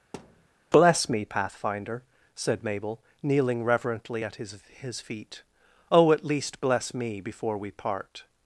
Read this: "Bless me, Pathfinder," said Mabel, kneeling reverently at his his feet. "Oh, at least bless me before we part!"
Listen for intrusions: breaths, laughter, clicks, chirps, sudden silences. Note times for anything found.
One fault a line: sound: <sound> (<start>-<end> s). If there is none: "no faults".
sound: thud (0.1-0.5 s)